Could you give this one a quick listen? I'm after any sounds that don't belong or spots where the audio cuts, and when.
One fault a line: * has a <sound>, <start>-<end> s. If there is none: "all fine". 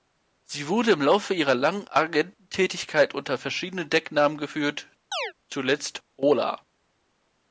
* has a chirp, 5.1-5.3 s